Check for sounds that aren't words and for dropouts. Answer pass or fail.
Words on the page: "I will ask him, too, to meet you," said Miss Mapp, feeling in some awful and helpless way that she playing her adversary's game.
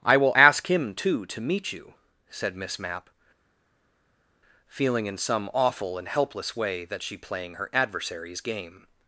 pass